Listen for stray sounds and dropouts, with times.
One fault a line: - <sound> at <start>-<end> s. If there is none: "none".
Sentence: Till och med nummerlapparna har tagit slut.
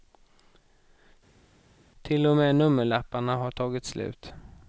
none